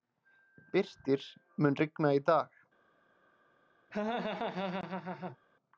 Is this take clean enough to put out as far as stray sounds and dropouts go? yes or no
no